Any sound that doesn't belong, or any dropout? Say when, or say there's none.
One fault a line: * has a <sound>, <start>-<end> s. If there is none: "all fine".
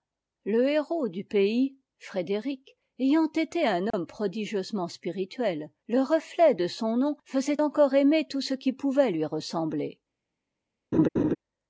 * has a dropout, 3.9-3.9 s
* has a laugh, 10.9-11.4 s